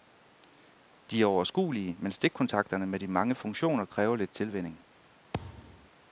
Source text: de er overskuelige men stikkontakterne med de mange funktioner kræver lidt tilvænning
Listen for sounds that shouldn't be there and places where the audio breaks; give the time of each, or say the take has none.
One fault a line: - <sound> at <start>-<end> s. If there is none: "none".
- thud at 5.3-5.9 s